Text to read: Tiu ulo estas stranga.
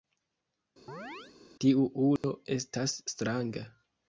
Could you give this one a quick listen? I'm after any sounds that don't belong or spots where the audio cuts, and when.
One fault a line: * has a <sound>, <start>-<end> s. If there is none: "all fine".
* has a chirp, 0.9-1.3 s
* has a dropout, 2.2-2.2 s